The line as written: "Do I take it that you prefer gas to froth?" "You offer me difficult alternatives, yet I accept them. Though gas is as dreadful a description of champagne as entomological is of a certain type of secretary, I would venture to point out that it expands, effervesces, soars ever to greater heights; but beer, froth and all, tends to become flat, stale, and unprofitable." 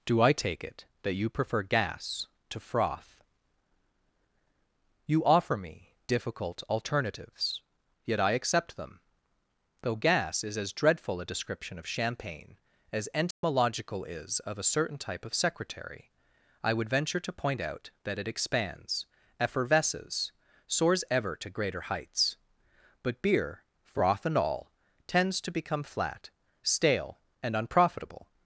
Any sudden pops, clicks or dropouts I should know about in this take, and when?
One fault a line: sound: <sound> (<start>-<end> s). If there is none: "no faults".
sound: dropout (13.3-13.4 s)